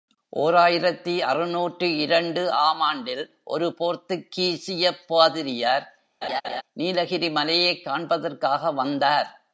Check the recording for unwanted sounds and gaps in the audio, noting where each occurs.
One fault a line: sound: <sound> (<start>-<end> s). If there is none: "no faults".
sound: laugh (6.2-6.6 s)